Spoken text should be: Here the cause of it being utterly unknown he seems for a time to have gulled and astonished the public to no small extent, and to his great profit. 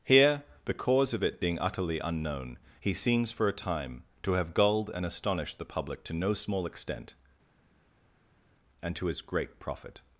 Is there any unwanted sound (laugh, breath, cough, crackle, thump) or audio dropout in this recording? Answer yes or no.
no